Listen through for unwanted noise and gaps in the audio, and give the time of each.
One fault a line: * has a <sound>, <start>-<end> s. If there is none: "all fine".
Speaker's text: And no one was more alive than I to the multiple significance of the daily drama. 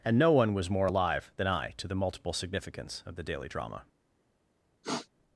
* has a sniff, 4.8-5.1 s